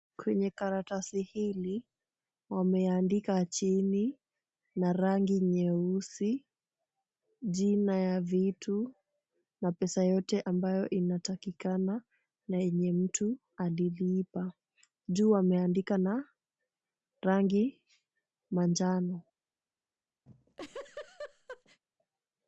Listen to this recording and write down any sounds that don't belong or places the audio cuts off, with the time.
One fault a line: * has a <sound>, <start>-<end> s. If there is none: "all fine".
* has a laugh, 20.3-21.8 s